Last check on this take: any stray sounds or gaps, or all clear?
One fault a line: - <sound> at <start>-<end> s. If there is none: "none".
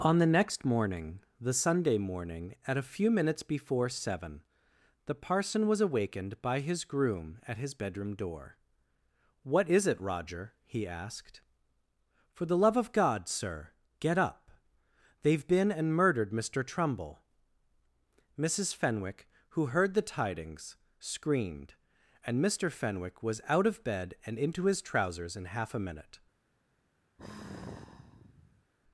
- sigh at 27.2-28.7 s